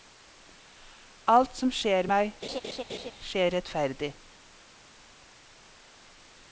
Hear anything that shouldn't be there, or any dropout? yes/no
yes